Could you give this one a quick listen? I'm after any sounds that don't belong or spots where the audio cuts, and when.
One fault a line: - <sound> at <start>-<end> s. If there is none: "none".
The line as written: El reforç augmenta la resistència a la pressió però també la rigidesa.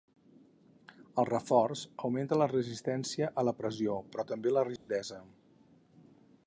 - dropout at 4.8-4.9 s